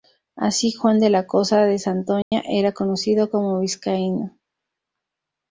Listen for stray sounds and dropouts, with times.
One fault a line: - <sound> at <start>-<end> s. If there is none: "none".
- dropout at 2.2-2.3 s